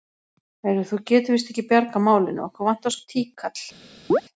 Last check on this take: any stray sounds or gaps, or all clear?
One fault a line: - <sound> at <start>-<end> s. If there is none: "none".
- chirp at 4.1-4.2 s